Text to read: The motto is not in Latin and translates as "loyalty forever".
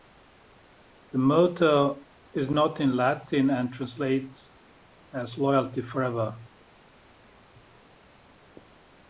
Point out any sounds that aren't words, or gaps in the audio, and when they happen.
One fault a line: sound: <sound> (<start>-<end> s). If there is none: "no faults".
no faults